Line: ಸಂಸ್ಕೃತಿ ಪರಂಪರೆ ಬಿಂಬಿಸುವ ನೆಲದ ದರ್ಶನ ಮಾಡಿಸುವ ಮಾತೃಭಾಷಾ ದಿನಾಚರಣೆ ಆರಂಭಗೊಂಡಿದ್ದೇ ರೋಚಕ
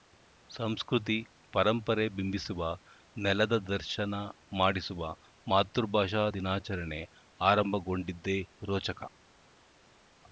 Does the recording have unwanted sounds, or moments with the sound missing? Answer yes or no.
no